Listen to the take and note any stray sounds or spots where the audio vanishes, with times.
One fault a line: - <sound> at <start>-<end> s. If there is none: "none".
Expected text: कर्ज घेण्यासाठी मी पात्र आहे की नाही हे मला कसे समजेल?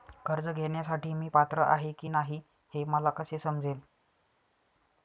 none